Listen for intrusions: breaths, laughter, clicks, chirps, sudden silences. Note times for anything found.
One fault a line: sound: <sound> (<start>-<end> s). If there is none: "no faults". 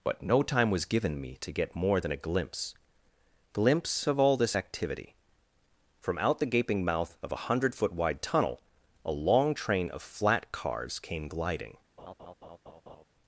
sound: laugh (12.0-13.0 s)